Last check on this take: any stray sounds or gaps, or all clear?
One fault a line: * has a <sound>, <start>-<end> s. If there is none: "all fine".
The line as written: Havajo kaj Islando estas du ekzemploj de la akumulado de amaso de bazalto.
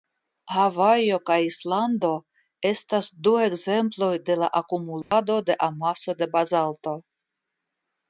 * has a dropout, 5.0-5.1 s